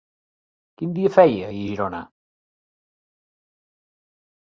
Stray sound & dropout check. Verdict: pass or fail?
pass